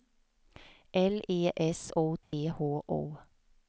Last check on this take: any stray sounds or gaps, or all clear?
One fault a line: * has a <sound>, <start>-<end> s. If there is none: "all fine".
* has a dropout, 2.2-2.3 s